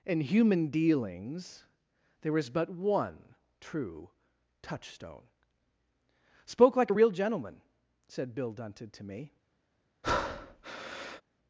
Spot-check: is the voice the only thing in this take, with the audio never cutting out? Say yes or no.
no